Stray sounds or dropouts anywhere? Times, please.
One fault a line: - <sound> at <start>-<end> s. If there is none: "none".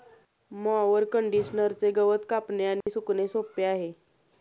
- dropout at 2.8-2.9 s